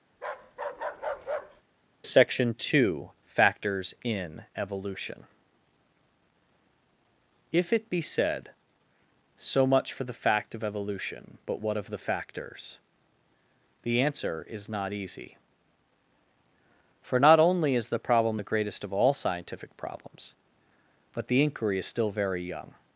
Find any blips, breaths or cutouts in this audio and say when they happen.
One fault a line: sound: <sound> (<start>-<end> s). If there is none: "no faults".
sound: bark (0.1-1.6 s)